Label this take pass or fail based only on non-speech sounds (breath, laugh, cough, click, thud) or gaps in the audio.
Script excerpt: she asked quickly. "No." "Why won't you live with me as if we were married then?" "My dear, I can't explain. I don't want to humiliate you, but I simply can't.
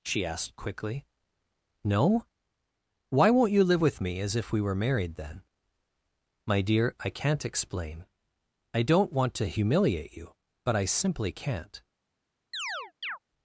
fail